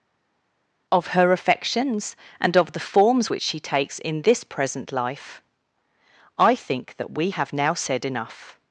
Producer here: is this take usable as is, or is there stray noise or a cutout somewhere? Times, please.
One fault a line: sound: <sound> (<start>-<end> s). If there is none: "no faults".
no faults